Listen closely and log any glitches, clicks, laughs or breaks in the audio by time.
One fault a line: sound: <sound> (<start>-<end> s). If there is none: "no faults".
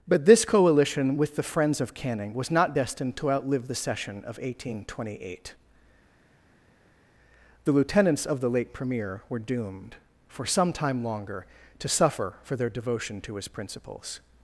no faults